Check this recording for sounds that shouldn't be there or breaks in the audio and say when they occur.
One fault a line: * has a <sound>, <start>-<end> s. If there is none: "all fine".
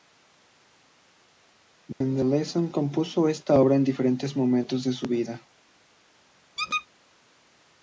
* has a dropout, 1.9-2.0 s
* has a squeak, 6.6-6.9 s